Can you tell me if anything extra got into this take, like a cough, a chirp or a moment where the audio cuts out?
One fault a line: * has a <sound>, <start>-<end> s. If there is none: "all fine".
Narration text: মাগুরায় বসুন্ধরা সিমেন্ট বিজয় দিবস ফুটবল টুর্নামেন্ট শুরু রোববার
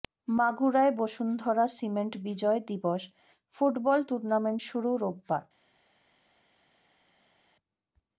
all fine